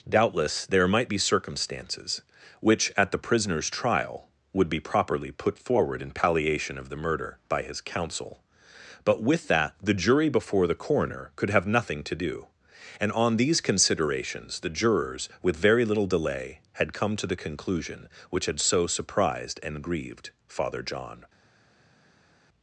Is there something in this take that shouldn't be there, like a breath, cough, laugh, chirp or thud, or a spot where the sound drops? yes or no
no